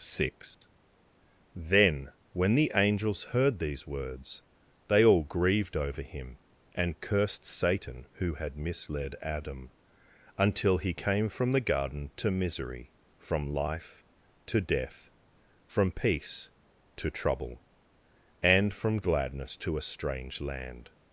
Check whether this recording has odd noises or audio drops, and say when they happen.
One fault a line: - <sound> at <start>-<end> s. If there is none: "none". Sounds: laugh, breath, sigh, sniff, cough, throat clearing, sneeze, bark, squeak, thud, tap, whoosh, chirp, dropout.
- dropout at 0.5-0.6 s